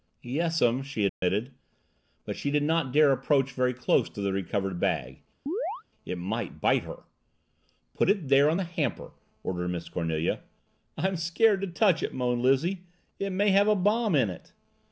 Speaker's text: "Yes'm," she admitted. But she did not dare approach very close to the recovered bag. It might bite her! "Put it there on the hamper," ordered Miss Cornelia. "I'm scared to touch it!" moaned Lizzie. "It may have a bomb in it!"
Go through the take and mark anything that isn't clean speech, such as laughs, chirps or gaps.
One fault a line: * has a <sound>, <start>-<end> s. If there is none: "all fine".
* has a dropout, 1.1-1.2 s
* has a chirp, 5.5-5.8 s